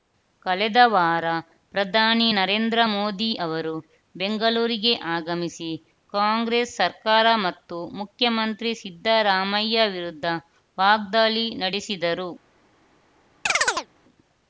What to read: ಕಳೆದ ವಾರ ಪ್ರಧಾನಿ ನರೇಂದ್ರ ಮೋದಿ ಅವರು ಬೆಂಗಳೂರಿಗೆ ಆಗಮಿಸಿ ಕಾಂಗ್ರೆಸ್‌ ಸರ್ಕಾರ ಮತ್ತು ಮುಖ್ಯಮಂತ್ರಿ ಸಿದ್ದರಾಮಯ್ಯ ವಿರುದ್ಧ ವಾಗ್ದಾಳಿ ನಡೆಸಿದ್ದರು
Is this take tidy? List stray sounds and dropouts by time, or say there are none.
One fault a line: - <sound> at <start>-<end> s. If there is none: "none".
- chirp at 13.5-13.9 s